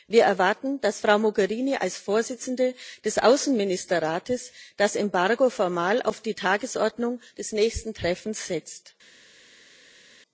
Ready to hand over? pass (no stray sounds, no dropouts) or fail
pass